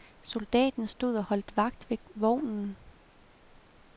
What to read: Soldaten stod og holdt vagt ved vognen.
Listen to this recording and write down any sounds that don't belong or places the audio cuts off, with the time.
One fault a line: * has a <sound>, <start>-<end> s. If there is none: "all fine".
all fine